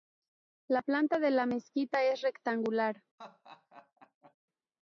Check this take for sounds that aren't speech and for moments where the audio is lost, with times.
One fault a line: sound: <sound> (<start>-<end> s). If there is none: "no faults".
sound: laugh (3.2-4.4 s)